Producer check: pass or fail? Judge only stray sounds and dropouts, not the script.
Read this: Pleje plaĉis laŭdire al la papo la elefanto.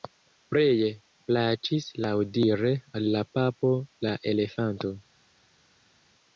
pass